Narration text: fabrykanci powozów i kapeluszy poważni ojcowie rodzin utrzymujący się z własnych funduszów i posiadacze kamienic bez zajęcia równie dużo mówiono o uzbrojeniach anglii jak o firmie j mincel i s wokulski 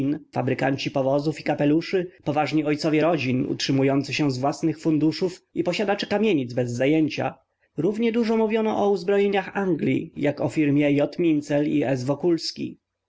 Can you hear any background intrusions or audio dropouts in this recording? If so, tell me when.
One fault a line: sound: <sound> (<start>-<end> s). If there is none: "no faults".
no faults